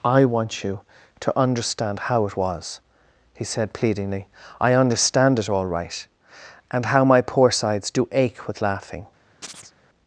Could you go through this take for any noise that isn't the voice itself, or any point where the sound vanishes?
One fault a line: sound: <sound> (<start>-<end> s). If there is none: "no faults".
sound: chirp (9.4-9.7 s)